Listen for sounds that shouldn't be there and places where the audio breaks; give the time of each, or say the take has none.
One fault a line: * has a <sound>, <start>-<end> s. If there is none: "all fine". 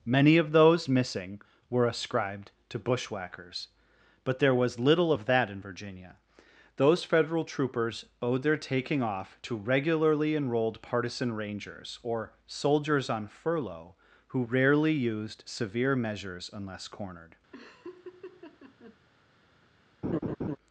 * has a laugh, 17.5-19.0 s
* has a laugh, 20.0-20.6 s